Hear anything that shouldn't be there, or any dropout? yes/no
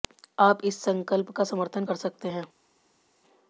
no